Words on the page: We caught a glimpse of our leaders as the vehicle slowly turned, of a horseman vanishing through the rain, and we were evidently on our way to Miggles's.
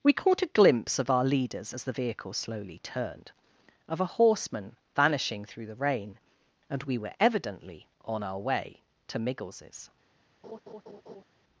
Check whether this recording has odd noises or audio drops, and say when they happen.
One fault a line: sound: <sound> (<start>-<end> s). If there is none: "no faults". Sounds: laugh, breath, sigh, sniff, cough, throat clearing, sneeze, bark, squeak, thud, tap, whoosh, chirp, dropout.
sound: laugh (10.4-11.2 s)